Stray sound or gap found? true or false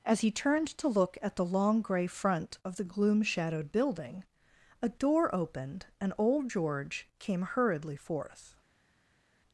false